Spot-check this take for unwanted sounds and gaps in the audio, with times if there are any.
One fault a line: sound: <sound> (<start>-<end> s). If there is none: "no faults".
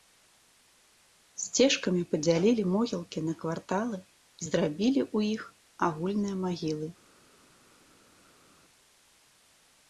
no faults